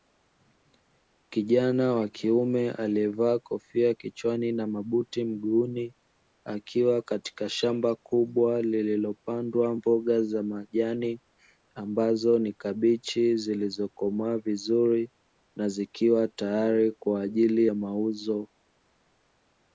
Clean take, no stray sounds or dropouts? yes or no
yes